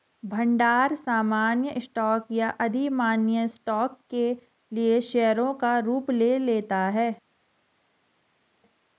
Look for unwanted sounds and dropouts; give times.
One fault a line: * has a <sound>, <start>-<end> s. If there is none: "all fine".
all fine